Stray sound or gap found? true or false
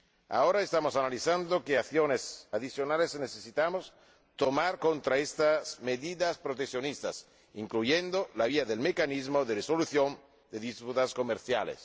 false